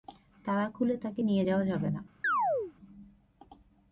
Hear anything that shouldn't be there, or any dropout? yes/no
yes